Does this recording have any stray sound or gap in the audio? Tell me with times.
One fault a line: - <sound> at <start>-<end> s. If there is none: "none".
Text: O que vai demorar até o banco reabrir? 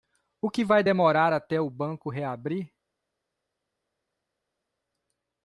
none